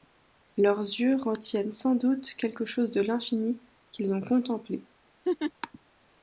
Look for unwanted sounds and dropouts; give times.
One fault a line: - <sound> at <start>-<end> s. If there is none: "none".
- laugh at 5.2-5.5 s